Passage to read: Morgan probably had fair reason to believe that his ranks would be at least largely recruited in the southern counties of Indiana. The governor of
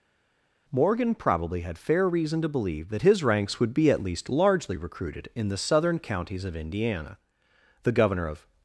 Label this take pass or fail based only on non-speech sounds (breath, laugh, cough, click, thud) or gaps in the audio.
pass